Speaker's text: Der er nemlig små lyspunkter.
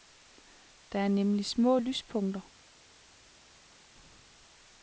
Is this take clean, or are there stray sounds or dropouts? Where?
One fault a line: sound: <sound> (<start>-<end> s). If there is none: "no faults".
no faults